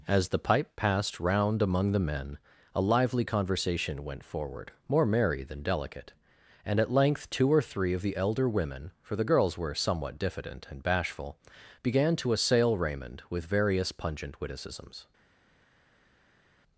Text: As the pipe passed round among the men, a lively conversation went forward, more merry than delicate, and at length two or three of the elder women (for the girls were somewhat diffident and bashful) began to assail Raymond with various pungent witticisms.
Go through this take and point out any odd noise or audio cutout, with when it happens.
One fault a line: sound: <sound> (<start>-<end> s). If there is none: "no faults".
no faults